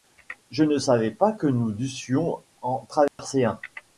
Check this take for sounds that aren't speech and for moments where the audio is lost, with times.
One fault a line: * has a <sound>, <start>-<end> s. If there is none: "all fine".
* has a dropout, 3.1-3.2 s